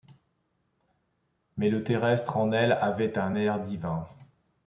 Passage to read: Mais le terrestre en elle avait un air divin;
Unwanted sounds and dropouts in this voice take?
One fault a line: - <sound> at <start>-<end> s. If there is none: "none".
none